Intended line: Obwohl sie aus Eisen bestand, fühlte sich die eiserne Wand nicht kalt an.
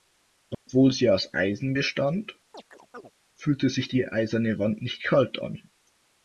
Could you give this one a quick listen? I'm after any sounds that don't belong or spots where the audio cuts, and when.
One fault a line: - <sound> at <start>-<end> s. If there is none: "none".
- dropout at 0.5-0.7 s
- chirp at 2.5-3.1 s